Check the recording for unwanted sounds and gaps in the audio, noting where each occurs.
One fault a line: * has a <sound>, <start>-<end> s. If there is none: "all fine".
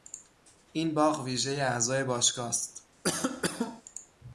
* has a cough, 3.0-3.8 s